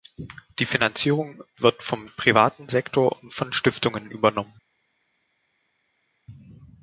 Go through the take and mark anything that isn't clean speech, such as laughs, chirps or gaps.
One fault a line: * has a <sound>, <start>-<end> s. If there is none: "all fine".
all fine